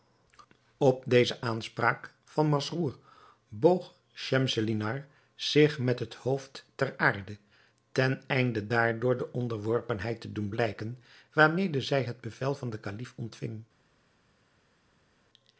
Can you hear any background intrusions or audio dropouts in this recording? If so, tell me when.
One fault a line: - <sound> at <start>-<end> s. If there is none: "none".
none